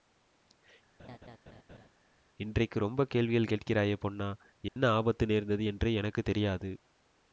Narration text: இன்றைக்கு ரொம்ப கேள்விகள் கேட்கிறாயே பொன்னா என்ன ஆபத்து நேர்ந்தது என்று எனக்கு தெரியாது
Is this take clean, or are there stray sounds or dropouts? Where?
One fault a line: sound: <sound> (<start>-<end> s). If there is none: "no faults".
sound: laugh (1.0-1.9 s)
sound: dropout (4.7-4.8 s)